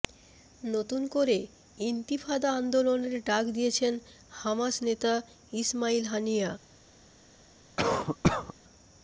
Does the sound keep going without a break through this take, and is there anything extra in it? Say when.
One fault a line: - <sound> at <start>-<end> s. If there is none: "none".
- cough at 7.8-8.5 s